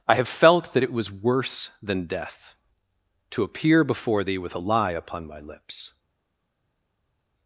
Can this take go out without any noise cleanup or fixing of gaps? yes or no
yes